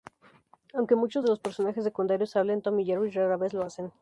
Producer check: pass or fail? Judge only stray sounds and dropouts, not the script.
pass